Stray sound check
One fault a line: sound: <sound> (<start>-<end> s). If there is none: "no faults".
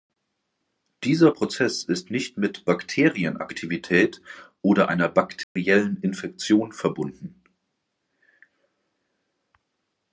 sound: dropout (5.4-5.6 s)